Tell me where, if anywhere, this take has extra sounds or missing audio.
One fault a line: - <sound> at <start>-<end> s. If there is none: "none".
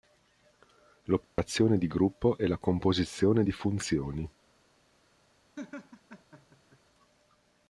- dropout at 1.2-1.4 s
- laugh at 5.6-6.8 s